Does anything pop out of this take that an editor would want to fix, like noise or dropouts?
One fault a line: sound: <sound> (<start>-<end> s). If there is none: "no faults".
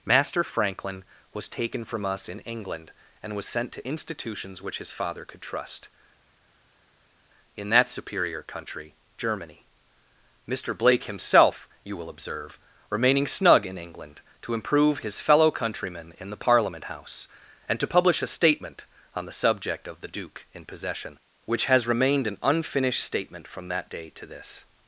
no faults